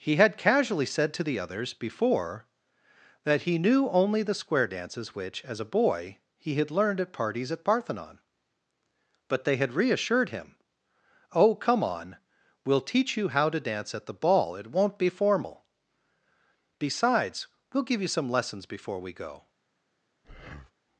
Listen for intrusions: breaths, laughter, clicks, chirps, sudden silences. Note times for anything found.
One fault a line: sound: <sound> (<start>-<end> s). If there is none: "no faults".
sound: breath (20.2-20.7 s)